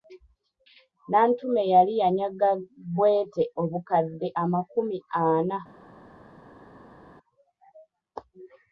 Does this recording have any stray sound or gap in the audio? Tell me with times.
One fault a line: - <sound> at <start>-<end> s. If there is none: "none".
none